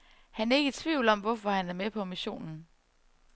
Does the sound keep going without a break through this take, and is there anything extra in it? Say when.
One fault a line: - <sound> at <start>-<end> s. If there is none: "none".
none